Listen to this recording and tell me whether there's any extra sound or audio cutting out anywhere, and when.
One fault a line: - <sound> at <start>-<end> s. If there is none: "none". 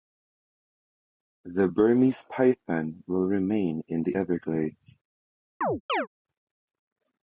- chirp at 5.6-6.1 s